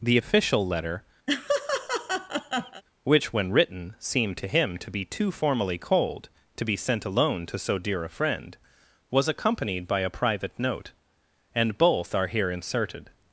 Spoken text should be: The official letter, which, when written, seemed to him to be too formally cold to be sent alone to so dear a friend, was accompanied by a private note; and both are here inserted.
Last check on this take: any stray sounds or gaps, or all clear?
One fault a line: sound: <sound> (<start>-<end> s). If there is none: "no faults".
sound: laugh (1.3-2.8 s)